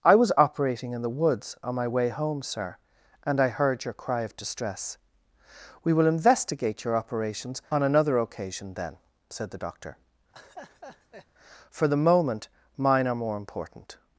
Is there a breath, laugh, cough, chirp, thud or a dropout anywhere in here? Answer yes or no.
yes